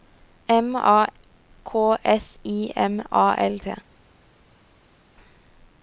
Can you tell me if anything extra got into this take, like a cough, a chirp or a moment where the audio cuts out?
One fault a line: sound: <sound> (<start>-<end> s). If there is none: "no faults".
no faults